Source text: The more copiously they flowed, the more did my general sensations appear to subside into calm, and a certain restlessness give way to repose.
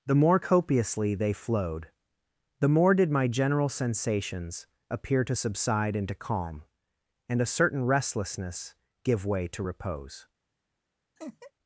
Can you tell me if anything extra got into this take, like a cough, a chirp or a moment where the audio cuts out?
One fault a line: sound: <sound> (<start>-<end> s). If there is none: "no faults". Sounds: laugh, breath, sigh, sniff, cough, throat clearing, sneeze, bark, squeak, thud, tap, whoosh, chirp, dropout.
sound: laugh (11.2-11.5 s)